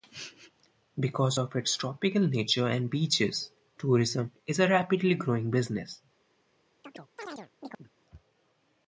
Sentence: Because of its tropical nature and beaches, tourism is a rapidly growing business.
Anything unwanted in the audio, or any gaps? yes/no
yes